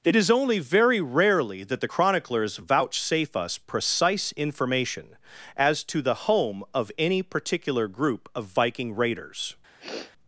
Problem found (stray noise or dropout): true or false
true